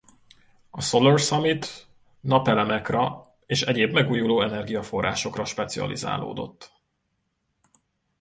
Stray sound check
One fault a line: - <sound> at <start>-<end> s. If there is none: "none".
none